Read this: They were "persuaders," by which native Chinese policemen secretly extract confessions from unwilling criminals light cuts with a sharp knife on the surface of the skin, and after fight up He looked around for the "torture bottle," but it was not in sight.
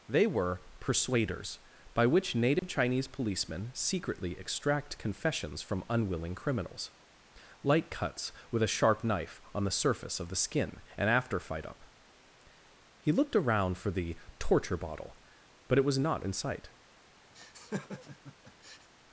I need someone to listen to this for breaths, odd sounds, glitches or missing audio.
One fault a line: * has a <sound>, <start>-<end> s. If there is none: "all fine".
* has a dropout, 2.6-2.6 s
* has a laugh, 17.3-18.9 s